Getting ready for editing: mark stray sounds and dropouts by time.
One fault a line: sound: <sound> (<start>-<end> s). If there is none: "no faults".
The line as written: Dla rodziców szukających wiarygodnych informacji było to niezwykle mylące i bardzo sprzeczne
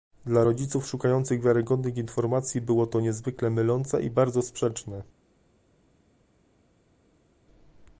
no faults